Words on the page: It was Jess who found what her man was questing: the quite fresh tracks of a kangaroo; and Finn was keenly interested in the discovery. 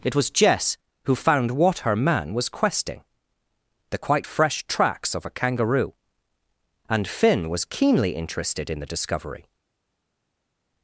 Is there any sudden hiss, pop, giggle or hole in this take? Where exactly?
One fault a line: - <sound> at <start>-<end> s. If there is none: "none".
none